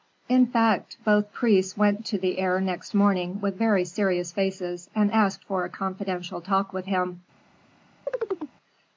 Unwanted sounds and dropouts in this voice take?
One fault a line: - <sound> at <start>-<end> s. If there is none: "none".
- chirp at 8.1-8.6 s